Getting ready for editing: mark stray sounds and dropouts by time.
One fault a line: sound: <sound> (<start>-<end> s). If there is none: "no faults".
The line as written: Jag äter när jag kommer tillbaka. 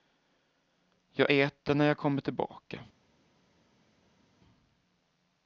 no faults